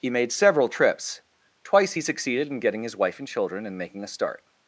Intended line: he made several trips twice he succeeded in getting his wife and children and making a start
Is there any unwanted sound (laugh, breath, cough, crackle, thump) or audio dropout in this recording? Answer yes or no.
no